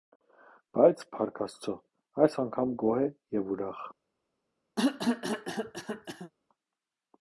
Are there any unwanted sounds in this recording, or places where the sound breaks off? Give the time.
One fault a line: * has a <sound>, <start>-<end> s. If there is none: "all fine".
* has a cough, 4.8-6.3 s